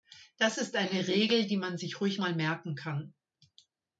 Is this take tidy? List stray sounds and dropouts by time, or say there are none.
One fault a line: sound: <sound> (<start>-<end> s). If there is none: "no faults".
no faults